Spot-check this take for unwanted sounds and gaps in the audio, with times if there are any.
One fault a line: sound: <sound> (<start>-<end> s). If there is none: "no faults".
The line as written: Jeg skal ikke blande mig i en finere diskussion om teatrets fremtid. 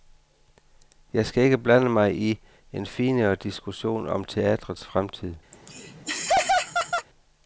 sound: laugh (5.5-7.1 s)